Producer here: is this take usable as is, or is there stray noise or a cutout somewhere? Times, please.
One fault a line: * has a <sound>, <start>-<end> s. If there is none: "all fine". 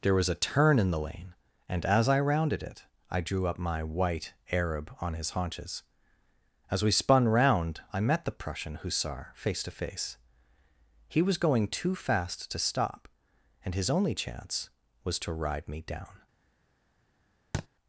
* has a thud, 17.5-17.7 s